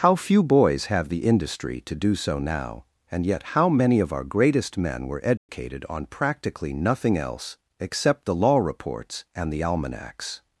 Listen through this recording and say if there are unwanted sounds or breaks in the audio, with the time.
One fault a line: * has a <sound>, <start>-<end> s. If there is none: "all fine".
* has a dropout, 5.4-5.5 s